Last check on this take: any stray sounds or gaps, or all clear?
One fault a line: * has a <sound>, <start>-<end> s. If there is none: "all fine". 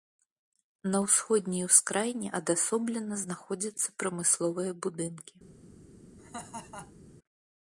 * has a laugh, 6.2-7.0 s